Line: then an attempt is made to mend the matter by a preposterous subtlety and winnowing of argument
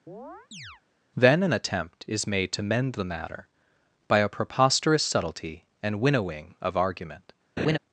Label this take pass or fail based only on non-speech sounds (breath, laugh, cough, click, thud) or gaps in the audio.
fail